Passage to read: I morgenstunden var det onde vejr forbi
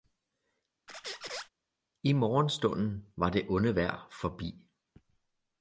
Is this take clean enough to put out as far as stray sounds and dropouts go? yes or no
no